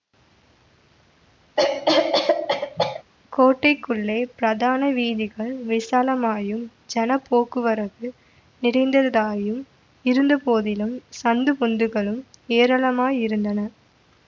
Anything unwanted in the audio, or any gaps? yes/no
yes